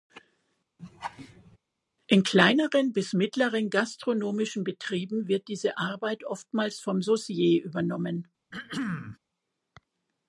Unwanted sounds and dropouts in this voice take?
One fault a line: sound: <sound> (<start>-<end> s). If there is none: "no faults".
sound: laugh (0.8-1.6 s)
sound: throat clearing (8.5-9.2 s)